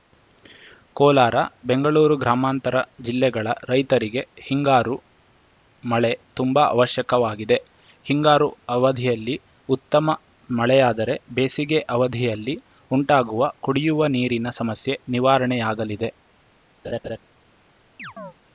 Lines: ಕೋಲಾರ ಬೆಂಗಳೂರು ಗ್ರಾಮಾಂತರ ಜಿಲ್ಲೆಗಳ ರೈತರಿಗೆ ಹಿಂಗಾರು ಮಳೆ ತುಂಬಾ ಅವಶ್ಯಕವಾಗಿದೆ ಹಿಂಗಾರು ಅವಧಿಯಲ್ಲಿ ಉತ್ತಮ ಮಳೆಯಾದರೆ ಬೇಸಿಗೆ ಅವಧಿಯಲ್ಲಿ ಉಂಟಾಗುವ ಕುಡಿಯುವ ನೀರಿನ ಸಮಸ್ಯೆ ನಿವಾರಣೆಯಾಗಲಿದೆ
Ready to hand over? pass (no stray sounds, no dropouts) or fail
fail